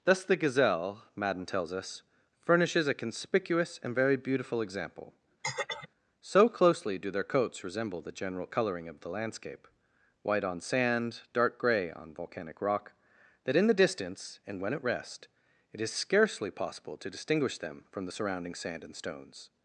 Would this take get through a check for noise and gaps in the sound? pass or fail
fail